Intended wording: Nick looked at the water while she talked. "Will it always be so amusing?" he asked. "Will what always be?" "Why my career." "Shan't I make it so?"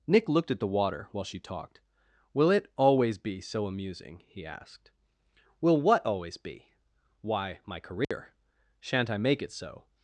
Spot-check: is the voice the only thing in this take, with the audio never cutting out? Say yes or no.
no